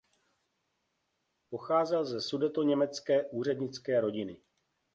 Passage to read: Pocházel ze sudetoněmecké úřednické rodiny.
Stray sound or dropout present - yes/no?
no